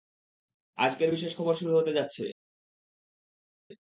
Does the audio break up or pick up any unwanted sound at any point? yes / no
no